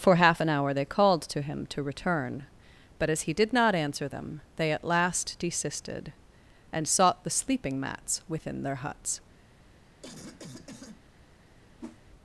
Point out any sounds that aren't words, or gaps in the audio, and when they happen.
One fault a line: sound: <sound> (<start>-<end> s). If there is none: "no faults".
sound: cough (10.0-11.0 s)
sound: whoosh (11.8-12.0 s)